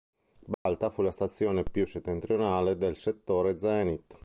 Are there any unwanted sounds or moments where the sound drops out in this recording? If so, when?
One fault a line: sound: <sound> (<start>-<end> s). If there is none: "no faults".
sound: dropout (0.5-0.7 s)